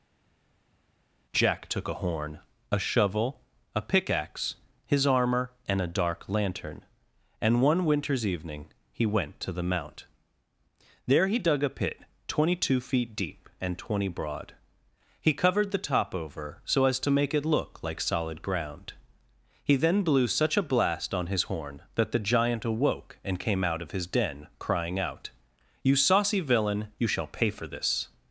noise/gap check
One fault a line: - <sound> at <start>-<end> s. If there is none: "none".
none